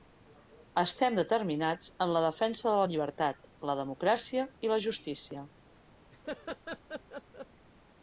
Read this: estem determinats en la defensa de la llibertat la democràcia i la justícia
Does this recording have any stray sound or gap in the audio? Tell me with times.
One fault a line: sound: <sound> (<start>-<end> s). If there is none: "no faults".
sound: laugh (6.1-7.5 s)